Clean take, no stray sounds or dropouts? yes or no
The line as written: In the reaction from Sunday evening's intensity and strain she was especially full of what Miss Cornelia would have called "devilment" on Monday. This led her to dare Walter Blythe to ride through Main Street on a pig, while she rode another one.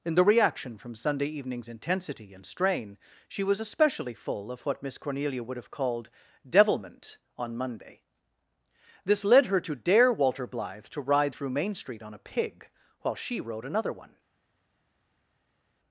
yes